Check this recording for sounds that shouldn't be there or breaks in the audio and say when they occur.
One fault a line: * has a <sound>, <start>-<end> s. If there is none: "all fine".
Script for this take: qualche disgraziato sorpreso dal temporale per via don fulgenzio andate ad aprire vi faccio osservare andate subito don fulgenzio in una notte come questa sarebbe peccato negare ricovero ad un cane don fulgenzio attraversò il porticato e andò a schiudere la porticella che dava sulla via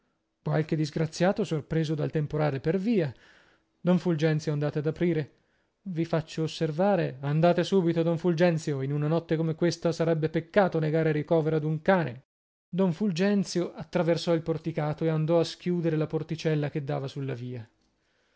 all fine